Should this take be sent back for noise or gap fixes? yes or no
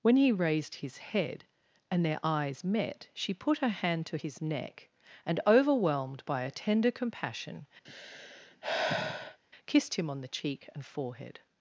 yes